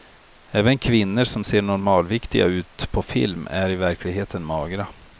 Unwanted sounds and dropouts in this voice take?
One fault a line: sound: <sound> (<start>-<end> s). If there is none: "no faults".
no faults